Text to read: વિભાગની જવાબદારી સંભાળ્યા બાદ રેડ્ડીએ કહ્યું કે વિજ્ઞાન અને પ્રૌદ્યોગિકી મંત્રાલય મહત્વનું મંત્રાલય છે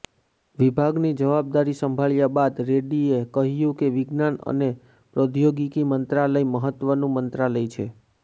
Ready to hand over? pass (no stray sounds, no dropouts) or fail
pass